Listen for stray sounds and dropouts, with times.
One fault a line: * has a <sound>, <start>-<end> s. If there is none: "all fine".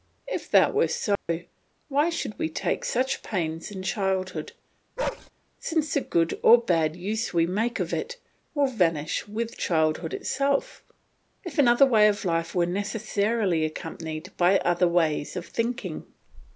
* has a dropout, 1.2-1.3 s
* has a bark, 5.0-5.3 s